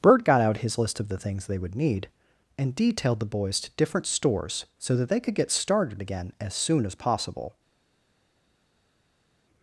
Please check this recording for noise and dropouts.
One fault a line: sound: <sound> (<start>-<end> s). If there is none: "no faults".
no faults